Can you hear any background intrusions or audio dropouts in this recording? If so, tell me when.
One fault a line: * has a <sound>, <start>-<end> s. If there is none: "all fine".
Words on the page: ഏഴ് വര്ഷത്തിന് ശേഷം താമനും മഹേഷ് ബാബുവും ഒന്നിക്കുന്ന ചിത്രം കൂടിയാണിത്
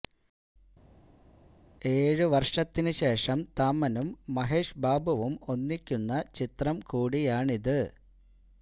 all fine